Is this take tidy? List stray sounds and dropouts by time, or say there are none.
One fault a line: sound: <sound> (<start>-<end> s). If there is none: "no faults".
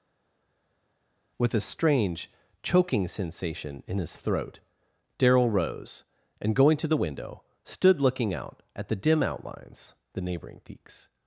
no faults